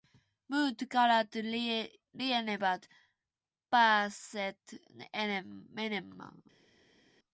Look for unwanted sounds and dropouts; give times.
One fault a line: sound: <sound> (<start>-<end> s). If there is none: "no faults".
no faults